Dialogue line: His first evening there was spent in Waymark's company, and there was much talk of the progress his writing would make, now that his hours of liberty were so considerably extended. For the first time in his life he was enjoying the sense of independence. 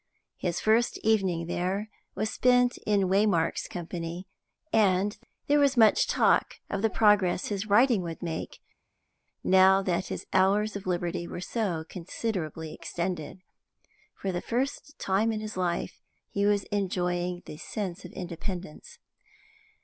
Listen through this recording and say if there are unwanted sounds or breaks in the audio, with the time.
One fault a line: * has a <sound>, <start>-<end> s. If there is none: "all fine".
all fine